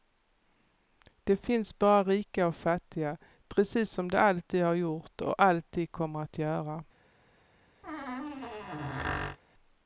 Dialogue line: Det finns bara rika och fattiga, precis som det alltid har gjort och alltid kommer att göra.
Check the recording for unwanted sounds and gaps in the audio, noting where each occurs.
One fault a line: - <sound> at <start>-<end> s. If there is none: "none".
- squeak at 7.8-9.4 s